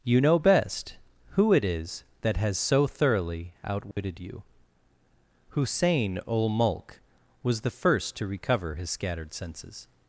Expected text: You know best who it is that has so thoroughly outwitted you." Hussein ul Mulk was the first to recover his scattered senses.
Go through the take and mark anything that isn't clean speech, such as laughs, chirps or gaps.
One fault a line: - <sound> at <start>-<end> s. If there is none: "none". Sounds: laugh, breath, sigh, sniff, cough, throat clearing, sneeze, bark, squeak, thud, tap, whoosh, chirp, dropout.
- dropout at 3.9-4.0 s